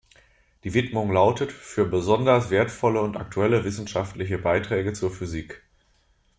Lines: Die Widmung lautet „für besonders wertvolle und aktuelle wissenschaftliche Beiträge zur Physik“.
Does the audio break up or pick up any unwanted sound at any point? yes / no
no